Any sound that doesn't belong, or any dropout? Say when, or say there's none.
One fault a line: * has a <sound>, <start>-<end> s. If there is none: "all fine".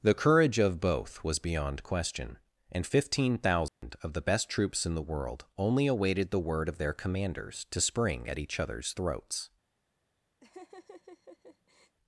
* has a dropout, 3.7-3.8 s
* has a laugh, 10.4-12.0 s